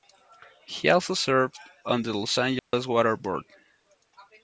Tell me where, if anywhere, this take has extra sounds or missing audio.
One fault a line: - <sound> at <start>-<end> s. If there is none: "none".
- dropout at 2.6-2.7 s